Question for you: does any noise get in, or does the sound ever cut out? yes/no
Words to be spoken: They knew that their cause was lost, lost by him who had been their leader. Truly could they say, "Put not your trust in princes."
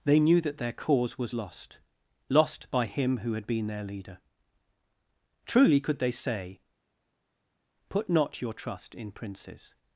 no